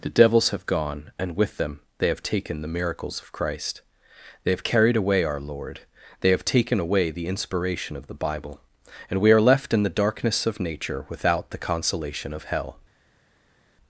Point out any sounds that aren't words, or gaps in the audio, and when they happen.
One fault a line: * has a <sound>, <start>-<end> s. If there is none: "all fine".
all fine